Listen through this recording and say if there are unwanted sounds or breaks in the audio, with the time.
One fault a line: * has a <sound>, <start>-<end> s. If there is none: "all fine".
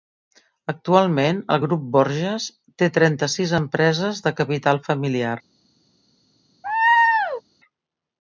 * has a laugh, 6.6-7.4 s